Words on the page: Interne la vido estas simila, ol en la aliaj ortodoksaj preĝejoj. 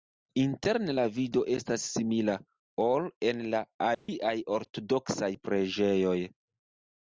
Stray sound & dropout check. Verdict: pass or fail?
fail